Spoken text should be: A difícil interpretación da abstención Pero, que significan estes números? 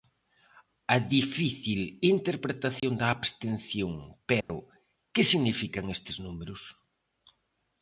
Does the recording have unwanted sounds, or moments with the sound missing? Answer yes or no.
yes